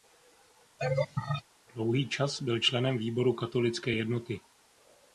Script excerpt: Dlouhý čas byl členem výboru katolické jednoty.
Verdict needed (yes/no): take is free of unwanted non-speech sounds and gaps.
no